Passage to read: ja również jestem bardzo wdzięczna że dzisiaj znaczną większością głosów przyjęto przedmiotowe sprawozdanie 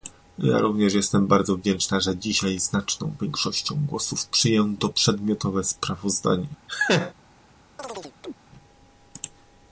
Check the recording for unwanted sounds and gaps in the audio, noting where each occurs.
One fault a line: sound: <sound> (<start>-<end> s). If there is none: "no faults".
sound: laugh (6.7-7.1 s)
sound: chirp (7.8-8.4 s)